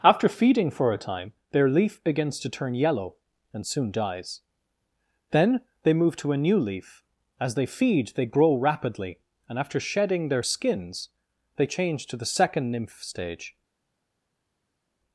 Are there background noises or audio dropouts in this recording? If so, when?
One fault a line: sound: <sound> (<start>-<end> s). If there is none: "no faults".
no faults